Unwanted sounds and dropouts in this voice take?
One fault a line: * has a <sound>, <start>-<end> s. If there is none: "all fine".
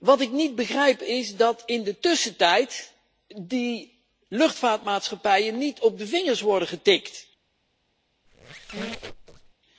* has a squeak, 8.3-9.5 s